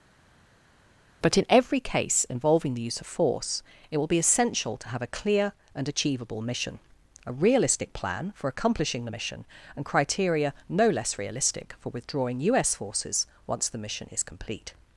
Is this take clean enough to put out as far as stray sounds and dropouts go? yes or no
yes